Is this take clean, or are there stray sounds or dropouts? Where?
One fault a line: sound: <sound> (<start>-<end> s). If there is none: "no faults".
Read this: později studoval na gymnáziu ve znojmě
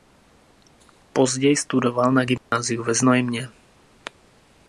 sound: dropout (2.4-2.5 s)